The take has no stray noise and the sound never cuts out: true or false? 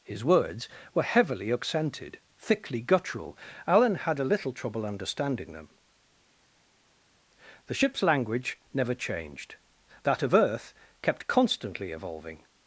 true